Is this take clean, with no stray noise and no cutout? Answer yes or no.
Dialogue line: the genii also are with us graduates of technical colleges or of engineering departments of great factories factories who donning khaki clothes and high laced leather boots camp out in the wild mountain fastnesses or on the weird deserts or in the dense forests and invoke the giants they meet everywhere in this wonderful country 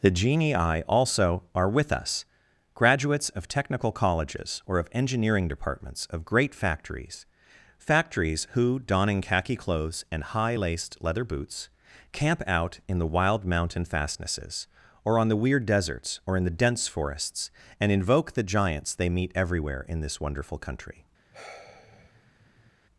no